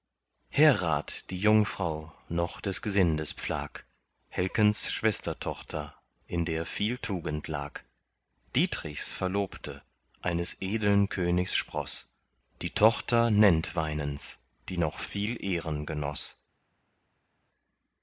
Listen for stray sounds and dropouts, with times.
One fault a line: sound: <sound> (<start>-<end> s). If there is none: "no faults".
no faults